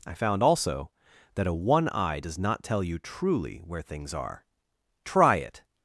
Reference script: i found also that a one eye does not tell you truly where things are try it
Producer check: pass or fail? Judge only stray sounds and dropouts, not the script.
pass